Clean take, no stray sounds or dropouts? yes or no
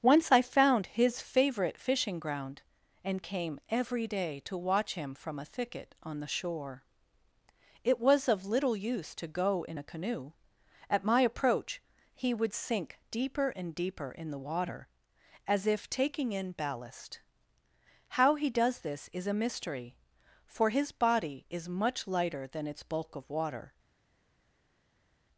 yes